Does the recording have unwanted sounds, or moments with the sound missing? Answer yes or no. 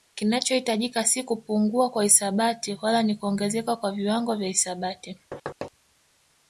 yes